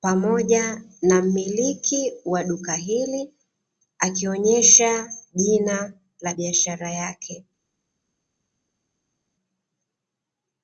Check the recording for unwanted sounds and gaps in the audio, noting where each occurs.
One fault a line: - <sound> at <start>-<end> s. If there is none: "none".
none